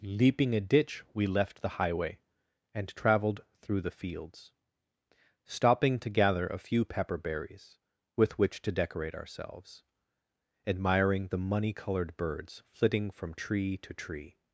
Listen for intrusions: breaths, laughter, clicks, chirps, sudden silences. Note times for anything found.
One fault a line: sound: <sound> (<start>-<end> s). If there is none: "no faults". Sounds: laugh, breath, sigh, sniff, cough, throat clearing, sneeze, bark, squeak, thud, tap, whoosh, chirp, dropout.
no faults